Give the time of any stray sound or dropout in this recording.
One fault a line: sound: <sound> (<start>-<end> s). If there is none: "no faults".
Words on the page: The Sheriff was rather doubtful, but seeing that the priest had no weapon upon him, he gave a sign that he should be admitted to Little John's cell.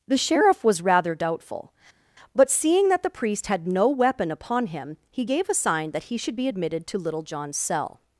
no faults